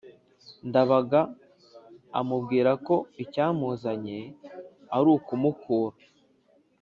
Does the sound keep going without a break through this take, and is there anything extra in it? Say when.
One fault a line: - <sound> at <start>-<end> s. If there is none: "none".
none